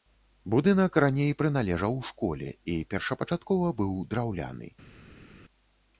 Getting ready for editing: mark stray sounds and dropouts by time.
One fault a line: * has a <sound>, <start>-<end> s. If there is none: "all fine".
all fine